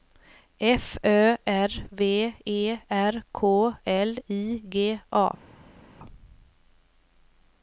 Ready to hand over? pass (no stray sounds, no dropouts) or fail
pass